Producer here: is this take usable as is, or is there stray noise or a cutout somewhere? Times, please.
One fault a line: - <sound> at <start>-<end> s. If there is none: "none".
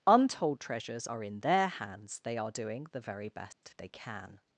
- dropout at 3.5-3.6 s